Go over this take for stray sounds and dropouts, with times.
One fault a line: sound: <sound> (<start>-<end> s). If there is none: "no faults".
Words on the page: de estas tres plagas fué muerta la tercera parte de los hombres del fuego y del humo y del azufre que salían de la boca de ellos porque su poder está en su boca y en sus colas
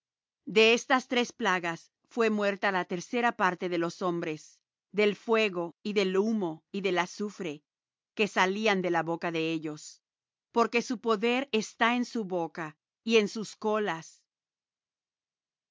no faults